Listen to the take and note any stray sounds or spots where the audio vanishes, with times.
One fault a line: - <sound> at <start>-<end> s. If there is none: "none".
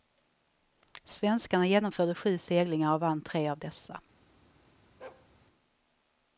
- bark at 5.0-5.3 s